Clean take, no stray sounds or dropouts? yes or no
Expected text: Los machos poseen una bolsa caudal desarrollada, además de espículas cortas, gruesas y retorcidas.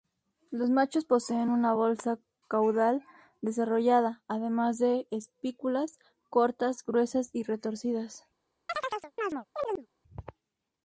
no